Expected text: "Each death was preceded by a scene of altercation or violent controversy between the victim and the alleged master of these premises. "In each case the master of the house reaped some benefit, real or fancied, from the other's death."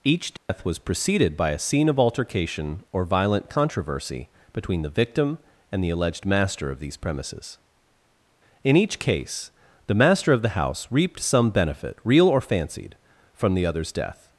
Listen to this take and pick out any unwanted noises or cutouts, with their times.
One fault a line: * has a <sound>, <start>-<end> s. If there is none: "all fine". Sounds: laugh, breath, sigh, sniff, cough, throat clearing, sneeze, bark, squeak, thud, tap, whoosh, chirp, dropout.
* has a dropout, 0.4-0.5 s